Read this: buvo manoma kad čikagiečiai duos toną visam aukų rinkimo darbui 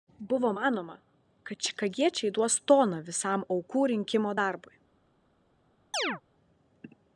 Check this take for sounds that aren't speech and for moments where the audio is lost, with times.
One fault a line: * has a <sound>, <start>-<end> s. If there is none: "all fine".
* has a chirp, 5.9-6.2 s